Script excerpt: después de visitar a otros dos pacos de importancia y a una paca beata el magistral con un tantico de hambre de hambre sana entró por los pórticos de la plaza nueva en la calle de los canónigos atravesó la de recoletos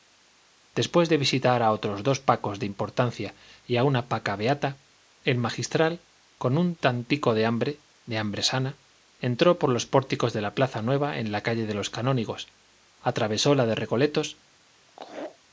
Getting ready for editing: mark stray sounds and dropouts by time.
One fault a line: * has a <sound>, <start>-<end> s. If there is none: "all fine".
* has a laugh, 14.9-15.4 s